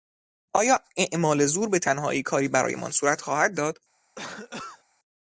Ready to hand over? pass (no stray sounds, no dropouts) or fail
fail